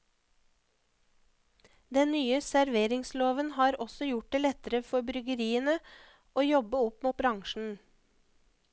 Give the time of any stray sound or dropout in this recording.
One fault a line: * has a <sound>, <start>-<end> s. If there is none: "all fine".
all fine